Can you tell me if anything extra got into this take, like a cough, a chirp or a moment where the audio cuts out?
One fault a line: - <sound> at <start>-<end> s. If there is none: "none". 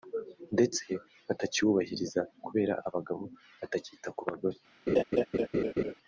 - laugh at 4.9-5.9 s